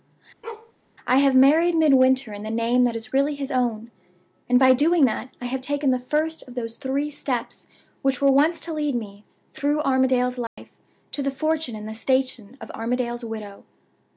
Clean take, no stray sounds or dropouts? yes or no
no